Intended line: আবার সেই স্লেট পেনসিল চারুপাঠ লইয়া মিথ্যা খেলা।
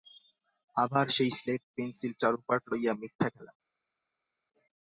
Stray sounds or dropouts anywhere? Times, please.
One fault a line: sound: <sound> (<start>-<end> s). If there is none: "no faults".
no faults